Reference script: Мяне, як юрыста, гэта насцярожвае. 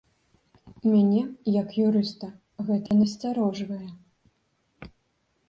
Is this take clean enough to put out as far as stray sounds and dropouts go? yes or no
no